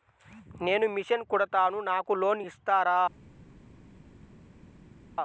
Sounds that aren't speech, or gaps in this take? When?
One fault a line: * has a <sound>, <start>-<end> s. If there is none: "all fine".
all fine